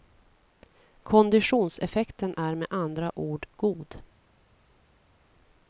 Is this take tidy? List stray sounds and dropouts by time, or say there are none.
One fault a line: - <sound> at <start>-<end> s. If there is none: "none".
none